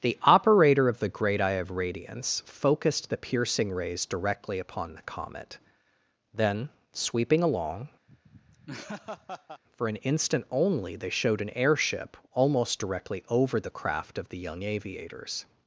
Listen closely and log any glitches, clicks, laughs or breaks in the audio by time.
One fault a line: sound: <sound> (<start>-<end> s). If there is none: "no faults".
sound: laugh (8.1-9.6 s)